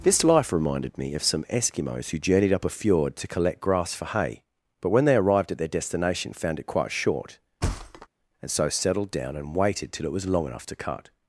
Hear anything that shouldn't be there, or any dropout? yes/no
yes